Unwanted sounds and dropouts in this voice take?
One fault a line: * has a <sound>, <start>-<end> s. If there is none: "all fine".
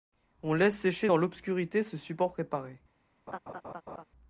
* has a laugh, 3.3-4.0 s